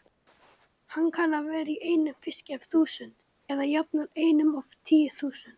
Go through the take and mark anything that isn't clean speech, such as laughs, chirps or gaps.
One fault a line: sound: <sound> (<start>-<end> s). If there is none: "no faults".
no faults